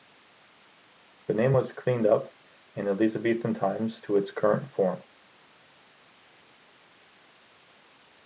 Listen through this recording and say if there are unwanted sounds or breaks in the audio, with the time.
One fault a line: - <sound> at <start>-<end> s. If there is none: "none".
none